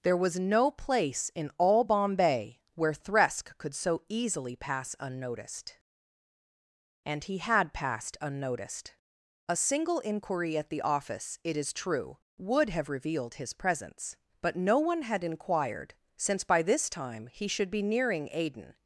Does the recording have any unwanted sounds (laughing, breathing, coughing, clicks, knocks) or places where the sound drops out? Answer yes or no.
no